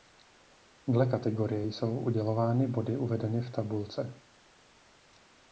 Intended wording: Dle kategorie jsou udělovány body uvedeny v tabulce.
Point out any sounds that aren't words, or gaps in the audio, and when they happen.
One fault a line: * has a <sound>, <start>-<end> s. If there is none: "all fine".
all fine